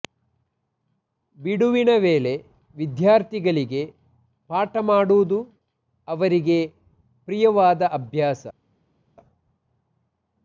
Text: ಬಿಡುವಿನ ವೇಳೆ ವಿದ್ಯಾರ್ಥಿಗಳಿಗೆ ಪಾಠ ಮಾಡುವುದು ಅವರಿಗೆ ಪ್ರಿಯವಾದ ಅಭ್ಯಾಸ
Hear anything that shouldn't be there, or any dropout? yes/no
no